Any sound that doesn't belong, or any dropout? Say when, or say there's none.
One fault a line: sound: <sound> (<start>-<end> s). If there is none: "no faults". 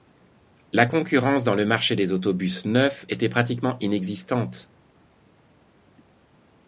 no faults